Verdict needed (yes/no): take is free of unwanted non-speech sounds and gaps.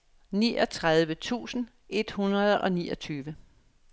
yes